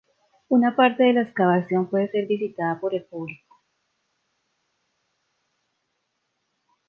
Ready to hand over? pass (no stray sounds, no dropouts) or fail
pass